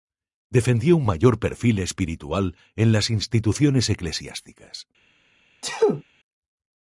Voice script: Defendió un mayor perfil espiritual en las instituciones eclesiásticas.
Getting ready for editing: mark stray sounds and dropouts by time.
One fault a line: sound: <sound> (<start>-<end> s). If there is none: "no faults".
sound: sneeze (5.6-6.0 s)